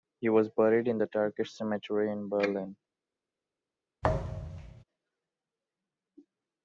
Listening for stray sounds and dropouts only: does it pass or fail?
fail